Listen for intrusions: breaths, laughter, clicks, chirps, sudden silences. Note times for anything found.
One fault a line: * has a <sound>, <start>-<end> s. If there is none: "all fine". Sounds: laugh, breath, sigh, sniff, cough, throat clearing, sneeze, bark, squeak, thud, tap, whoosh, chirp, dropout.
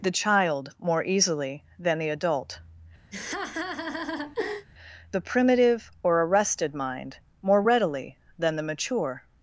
* has a laugh, 3.1-4.7 s